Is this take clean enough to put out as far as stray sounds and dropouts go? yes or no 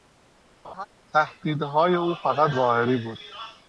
no